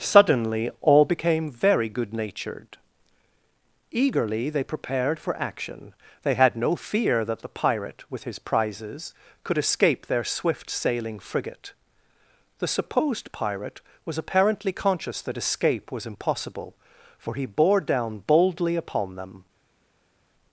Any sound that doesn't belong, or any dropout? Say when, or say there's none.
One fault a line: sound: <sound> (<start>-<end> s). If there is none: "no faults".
no faults